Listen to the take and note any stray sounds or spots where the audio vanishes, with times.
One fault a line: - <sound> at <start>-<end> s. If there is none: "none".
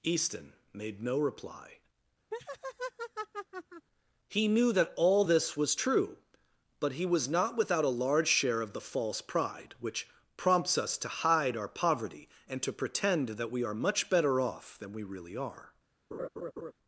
- laugh at 2.3-3.9 s
- laugh at 16.1-16.7 s